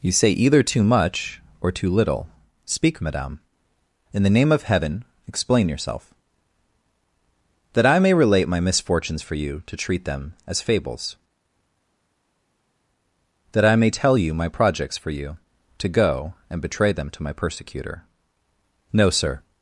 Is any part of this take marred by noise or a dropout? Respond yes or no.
no